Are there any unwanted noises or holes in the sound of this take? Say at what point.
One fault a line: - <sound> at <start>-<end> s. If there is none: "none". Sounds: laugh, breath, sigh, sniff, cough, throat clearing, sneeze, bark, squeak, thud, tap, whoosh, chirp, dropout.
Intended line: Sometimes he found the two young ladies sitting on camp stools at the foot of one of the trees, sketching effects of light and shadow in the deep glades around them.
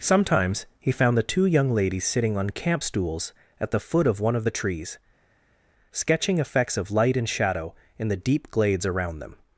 none